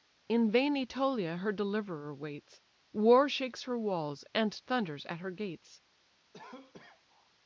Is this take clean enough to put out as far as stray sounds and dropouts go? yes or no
no